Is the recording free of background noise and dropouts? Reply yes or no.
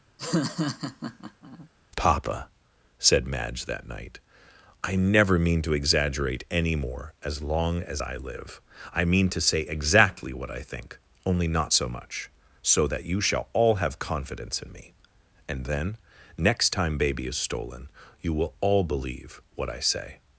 no